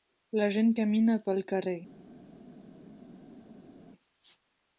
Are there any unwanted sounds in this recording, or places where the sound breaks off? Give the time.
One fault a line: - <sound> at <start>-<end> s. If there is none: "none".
none